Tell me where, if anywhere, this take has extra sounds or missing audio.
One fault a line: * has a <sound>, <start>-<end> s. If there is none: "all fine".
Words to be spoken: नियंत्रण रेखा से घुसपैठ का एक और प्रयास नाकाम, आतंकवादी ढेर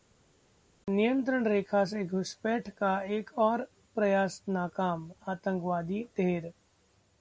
all fine